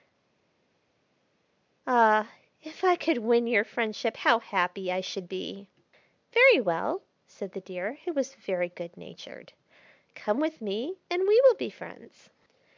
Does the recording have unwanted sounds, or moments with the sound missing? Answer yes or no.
no